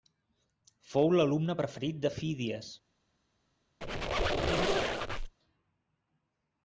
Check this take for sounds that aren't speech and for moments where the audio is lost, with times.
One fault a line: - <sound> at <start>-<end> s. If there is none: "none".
- squeak at 3.8-5.3 s